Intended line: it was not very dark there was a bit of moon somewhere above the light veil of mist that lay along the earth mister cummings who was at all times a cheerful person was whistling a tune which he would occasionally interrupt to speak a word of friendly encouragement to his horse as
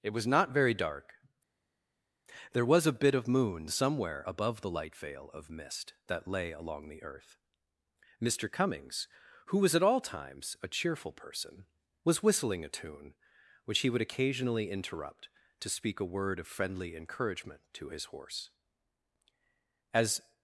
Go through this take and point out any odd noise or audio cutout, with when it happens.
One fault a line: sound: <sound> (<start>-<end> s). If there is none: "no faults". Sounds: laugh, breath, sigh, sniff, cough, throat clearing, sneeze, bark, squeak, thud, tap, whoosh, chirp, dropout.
no faults